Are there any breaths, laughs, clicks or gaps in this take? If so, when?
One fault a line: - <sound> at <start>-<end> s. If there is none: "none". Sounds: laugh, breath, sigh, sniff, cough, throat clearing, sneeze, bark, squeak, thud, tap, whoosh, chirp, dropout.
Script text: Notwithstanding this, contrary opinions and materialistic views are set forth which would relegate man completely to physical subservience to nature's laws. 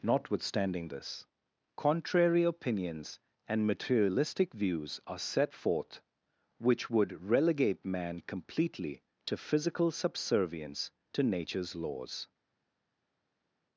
none